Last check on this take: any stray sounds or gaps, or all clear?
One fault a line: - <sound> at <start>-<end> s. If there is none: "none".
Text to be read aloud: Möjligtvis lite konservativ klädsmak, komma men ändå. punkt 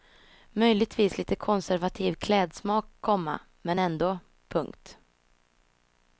none